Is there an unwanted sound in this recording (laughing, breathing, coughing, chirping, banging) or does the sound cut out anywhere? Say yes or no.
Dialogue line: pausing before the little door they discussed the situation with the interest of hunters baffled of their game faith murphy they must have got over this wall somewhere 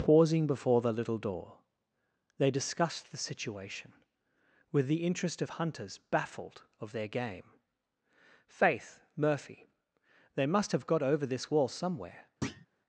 yes